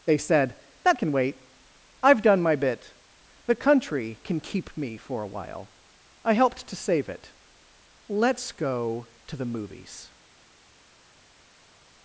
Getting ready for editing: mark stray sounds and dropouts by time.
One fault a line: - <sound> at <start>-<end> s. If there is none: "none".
none